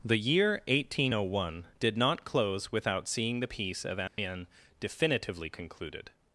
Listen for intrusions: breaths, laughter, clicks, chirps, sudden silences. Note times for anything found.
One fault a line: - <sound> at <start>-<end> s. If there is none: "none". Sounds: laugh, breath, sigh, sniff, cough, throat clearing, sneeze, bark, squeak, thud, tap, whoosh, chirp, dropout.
- dropout at 4.1-4.2 s